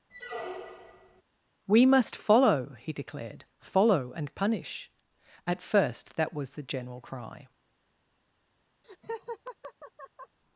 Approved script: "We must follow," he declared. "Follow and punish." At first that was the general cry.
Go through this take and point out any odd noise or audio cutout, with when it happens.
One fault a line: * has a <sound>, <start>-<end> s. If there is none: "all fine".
* has a squeak, 0.1-1.2 s
* has a laugh, 8.8-10.4 s